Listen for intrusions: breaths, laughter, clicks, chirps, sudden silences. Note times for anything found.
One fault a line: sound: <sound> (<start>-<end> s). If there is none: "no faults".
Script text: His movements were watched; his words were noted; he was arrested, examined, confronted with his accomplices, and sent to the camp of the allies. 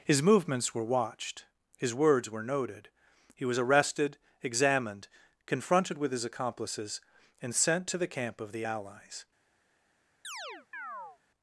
sound: chirp (10.2-11.2 s)